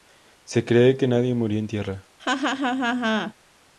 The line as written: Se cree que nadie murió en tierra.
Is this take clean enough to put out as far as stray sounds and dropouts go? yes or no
no